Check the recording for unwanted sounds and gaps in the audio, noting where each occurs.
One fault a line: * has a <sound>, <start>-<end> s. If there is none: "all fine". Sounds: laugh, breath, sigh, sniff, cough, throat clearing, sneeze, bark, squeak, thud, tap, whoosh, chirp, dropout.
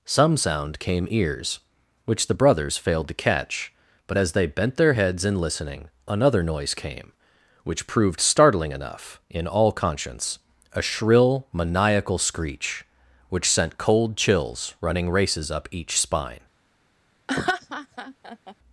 * has a laugh, 17.3-18.5 s